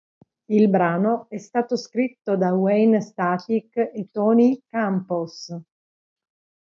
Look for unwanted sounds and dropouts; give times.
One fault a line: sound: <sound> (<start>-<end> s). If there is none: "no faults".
no faults